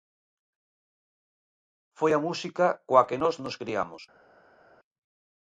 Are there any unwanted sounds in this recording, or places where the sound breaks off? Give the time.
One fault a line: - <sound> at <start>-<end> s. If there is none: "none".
none